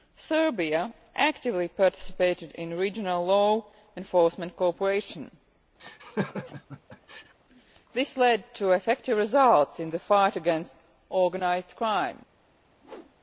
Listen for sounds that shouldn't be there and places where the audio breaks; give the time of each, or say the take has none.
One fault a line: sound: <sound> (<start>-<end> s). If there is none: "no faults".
sound: laugh (5.8-7.3 s)
sound: whoosh (12.8-13.2 s)